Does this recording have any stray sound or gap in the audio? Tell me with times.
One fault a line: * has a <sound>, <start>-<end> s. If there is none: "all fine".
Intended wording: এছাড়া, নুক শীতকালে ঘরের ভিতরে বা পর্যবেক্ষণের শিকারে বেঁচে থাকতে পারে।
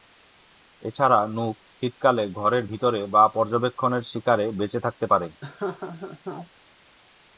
* has a laugh, 5.4-6.5 s